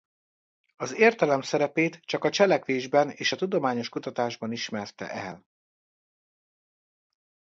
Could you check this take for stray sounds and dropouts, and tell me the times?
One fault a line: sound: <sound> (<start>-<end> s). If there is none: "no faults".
no faults